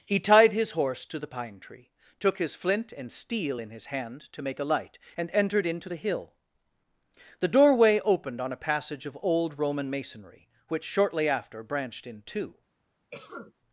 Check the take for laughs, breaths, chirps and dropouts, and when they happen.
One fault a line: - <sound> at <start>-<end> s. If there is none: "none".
- cough at 13.1-13.5 s